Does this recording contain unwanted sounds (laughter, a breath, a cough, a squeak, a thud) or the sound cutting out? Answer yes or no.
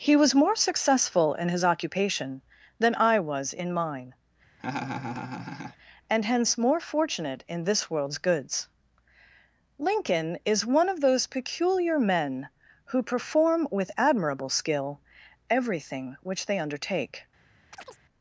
yes